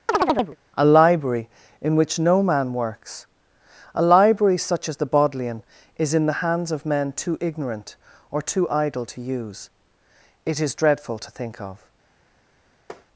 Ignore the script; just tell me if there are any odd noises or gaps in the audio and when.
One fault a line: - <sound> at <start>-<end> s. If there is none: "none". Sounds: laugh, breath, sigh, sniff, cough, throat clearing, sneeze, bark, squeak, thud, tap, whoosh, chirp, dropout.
- chirp at 0.1-0.6 s
- tap at 12.9-13.1 s